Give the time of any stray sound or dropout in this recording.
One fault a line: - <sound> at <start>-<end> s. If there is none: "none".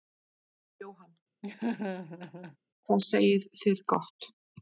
- laugh at 1.4-2.6 s